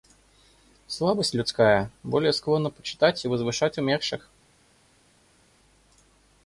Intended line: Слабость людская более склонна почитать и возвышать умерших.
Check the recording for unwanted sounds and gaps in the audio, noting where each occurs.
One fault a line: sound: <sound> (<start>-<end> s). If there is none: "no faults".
no faults